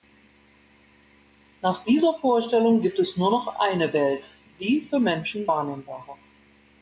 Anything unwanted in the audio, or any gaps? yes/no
no